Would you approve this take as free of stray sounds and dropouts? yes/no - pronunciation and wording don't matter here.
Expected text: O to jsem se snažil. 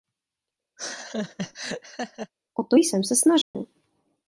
no